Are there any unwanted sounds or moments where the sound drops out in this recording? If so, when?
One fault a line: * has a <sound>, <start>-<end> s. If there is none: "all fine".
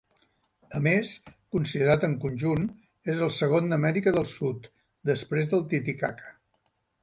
all fine